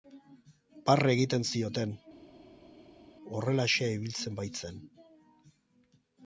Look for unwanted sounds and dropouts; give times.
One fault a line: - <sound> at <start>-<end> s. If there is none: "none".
none